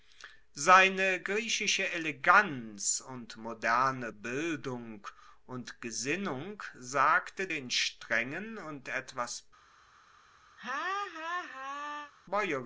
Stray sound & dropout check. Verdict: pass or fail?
fail